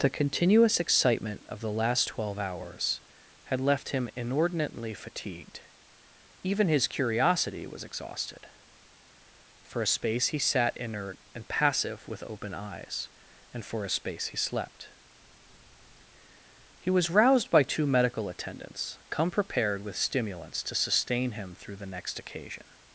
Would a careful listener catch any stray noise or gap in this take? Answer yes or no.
no